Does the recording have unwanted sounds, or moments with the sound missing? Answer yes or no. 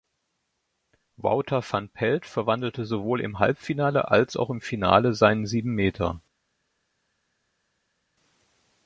no